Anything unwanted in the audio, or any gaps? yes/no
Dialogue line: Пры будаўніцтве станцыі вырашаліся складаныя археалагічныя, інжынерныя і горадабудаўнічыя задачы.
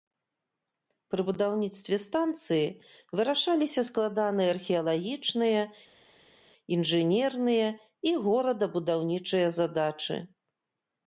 no